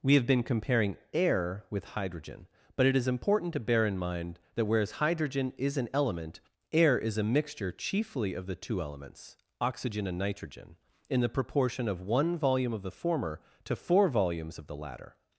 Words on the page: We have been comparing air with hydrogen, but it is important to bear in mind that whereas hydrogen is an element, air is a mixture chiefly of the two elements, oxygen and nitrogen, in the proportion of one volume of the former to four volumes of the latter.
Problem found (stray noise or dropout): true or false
false